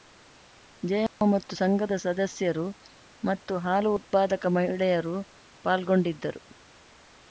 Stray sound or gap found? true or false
true